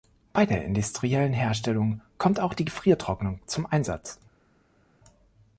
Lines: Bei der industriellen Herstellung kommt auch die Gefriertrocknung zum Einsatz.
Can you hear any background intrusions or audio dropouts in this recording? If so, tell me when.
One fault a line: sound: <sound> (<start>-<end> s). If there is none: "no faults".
no faults